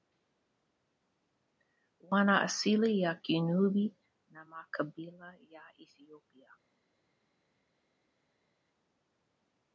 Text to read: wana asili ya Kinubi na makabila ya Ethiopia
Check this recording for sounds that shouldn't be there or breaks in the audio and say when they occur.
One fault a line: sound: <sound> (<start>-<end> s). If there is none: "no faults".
no faults